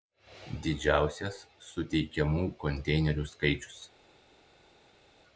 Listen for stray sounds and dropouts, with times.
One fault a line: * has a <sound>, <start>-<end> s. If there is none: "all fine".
all fine